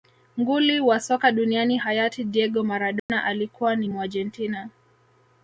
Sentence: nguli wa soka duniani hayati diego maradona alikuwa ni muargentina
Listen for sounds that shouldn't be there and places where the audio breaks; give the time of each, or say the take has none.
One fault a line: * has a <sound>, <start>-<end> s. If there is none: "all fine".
* has a dropout, 3.0-3.1 s